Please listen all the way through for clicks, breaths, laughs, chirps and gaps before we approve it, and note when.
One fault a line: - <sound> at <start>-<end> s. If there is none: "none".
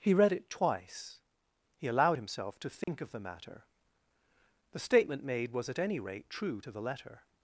- dropout at 2.8-2.9 s